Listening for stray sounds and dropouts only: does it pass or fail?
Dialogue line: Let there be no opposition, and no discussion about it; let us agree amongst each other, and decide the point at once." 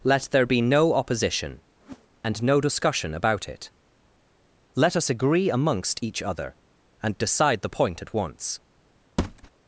fail